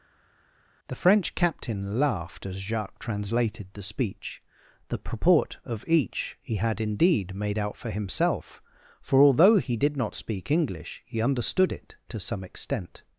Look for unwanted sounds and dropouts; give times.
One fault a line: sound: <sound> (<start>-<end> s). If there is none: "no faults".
no faults